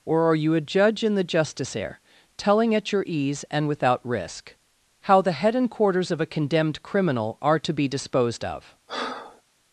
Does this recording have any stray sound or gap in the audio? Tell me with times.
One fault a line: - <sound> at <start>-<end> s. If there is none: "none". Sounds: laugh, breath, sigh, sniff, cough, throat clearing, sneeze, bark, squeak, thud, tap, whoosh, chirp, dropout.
- breath at 8.9-9.4 s